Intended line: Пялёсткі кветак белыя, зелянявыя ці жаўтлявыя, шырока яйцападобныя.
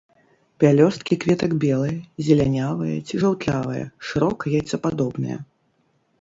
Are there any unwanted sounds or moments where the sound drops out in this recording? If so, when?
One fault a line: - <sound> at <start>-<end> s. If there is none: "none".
none